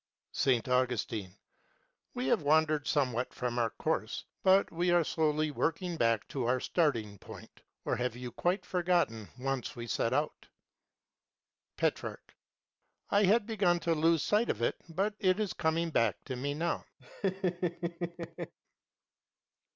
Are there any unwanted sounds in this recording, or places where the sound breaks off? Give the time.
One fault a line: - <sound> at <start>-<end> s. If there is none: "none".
- laugh at 17.0-18.5 s